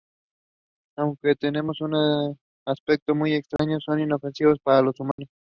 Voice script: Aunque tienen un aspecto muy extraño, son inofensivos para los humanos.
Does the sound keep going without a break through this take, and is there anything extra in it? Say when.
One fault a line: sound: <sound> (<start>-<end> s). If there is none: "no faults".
sound: dropout (3.6-3.6 s)
sound: dropout (5.1-5.2 s)